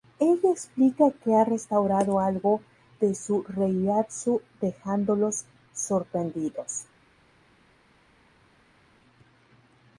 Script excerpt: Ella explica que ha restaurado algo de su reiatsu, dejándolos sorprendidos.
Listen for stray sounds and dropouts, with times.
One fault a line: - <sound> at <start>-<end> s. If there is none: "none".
none